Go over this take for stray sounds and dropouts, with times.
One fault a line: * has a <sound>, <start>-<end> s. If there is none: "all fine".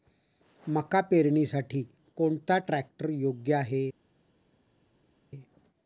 all fine